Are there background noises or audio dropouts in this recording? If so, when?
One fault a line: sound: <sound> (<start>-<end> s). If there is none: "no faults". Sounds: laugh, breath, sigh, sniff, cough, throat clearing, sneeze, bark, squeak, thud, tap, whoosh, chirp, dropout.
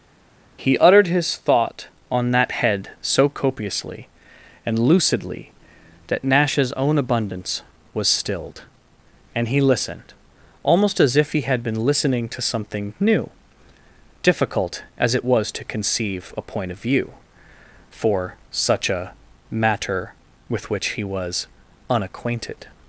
no faults